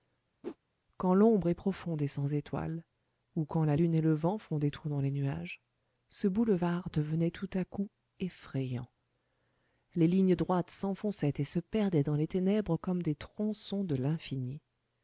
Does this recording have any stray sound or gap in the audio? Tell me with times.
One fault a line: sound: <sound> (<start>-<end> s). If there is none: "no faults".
sound: whoosh (0.4-0.6 s)